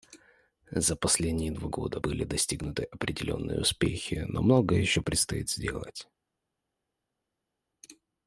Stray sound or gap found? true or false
false